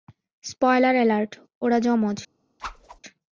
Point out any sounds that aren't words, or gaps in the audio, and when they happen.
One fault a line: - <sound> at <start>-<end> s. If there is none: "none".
- whoosh at 2.6-3.0 s